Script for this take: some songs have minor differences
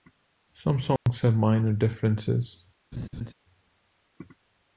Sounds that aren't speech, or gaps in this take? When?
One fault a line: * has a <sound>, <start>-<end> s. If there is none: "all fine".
* has a dropout, 1.0-1.1 s
* has a laugh, 2.9-3.3 s